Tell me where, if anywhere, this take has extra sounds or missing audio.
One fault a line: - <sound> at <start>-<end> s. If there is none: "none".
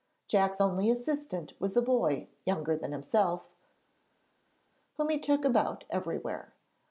none